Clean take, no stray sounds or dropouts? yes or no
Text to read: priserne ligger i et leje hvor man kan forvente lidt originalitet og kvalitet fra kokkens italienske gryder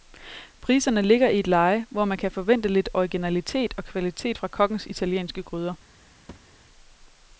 no